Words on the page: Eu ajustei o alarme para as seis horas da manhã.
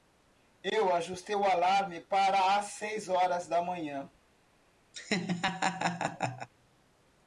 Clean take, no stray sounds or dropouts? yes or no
no